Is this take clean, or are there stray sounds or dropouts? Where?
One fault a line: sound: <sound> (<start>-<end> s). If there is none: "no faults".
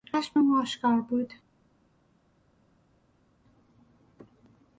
no faults